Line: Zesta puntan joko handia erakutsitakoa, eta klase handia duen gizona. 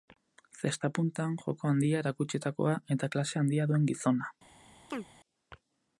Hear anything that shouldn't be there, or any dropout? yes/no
yes